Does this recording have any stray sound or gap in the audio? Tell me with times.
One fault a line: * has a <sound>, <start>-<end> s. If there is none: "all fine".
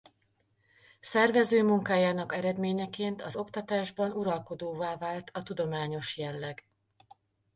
all fine